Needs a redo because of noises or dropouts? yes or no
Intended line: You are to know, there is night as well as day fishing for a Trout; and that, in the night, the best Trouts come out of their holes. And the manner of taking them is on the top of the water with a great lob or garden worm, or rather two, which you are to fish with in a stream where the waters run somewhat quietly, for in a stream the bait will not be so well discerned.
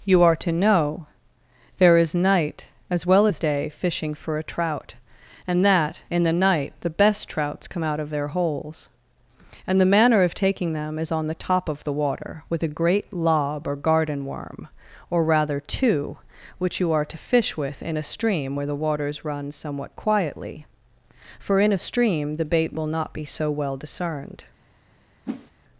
yes